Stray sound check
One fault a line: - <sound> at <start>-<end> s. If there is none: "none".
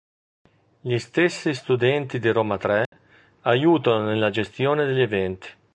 - dropout at 2.9-2.9 s